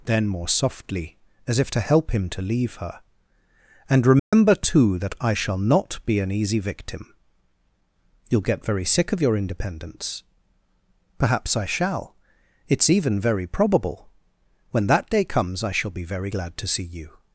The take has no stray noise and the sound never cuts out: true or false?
false